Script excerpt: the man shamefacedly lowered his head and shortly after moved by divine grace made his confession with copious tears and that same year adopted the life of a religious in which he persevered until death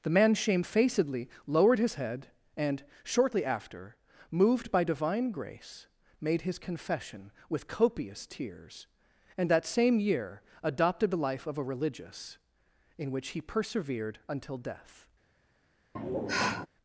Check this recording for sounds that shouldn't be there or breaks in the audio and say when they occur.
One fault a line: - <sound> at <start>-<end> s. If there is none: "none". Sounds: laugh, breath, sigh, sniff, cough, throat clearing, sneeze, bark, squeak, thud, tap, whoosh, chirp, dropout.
- sigh at 16.0-16.7 s